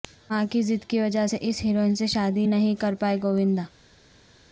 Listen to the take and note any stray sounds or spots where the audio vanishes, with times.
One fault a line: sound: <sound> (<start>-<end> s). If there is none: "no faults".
no faults